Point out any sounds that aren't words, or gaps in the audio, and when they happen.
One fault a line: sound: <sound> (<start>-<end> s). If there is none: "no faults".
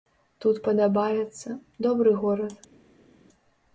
no faults